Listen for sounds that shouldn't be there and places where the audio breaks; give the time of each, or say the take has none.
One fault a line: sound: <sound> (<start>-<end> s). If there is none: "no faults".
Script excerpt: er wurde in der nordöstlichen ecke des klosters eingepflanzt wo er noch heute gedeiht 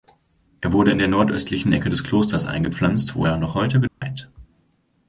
sound: dropout (3.9-4.0 s)